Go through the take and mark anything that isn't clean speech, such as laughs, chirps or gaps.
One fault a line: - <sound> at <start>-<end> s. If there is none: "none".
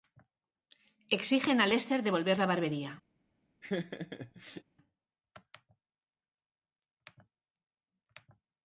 - laugh at 3.6-4.6 s